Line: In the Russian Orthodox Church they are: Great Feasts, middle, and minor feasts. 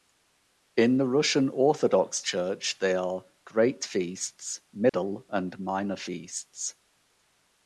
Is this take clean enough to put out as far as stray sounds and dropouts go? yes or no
no